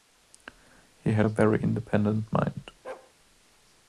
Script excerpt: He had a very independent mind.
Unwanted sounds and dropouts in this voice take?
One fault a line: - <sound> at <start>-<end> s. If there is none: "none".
- bark at 2.8-3.1 s